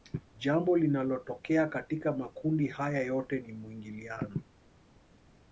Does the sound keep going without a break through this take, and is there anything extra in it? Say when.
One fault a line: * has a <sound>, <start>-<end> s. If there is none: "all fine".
all fine